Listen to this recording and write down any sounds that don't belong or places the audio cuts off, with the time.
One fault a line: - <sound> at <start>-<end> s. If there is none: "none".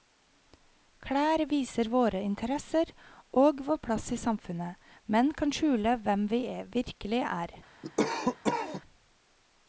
- cough at 7.8-8.8 s